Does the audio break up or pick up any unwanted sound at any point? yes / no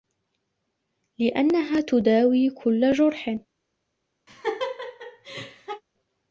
yes